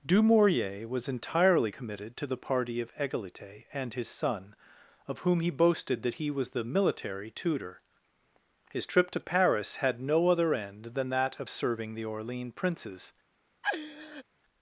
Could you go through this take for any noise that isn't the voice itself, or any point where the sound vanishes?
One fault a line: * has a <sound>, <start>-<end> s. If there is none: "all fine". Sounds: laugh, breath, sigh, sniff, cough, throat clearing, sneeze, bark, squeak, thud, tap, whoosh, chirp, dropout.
* has a laugh, 13.6-14.2 s